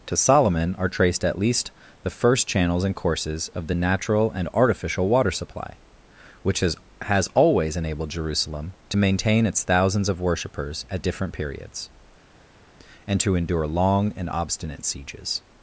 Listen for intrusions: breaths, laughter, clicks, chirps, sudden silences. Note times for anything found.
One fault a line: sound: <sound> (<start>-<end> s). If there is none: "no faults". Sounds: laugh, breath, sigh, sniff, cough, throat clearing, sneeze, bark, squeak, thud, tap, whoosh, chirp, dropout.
no faults